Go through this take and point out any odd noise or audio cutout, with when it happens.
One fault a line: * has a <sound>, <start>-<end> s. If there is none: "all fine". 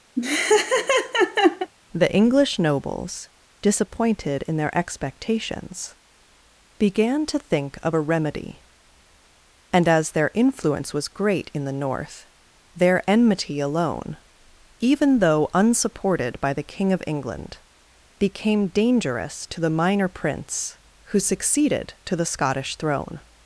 * has a laugh, 0.2-1.7 s